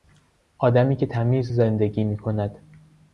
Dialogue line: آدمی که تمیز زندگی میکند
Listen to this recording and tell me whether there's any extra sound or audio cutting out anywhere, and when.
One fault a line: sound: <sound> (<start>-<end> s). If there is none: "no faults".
no faults